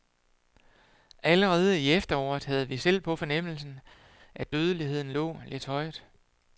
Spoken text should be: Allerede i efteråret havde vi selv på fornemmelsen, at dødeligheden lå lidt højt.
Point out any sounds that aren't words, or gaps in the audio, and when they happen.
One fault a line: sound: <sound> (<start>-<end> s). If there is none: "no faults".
no faults